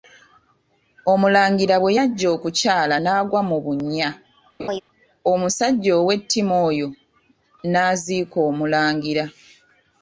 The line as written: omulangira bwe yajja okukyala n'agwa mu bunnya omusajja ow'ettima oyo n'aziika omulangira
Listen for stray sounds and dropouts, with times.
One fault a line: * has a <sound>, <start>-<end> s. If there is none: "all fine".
* has a laugh, 4.6-4.8 s